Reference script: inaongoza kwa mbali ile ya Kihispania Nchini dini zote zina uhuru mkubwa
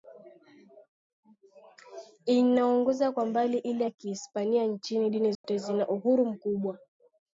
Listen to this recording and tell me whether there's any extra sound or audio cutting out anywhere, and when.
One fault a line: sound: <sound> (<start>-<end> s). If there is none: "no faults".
sound: dropout (5.3-5.4 s)